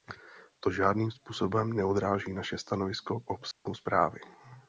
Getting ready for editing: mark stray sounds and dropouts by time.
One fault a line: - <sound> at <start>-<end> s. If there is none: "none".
- dropout at 3.5-3.7 s